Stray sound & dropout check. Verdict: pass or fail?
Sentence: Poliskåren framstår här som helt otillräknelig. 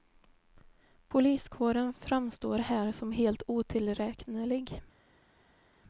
pass